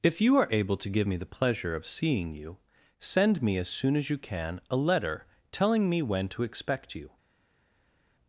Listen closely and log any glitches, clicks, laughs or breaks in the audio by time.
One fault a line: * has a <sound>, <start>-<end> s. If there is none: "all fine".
all fine